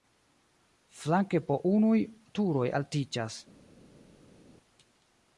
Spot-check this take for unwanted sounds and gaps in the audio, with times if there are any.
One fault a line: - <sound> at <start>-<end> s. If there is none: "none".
none